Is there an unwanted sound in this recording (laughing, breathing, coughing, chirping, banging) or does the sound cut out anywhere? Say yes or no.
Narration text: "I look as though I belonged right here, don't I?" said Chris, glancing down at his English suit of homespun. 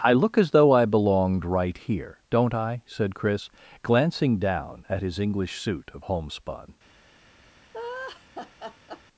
yes